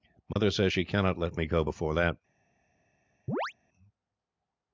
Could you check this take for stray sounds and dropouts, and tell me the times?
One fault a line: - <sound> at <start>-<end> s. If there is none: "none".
- dropout at 0.3-0.4 s
- chirp at 3.3-3.5 s